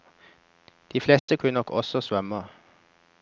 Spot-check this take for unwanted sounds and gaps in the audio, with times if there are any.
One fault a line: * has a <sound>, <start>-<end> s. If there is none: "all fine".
* has a dropout, 1.2-1.3 s